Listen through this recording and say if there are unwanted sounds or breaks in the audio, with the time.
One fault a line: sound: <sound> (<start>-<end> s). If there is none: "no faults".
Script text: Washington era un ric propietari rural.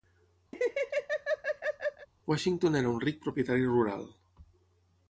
sound: laugh (0.5-2.1 s)